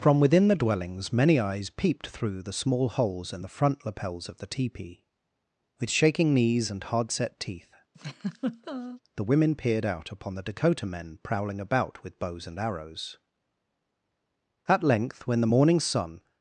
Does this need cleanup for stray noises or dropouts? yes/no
yes